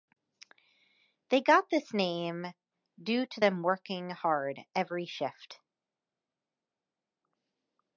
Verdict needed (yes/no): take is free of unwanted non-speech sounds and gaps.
yes